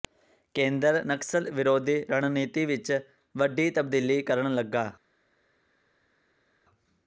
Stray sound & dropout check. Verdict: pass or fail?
pass